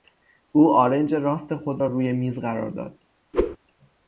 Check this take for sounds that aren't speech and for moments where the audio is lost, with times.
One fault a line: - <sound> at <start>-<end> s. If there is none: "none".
- whoosh at 3.3-3.6 s